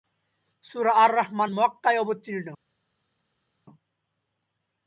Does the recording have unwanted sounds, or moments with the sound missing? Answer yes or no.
no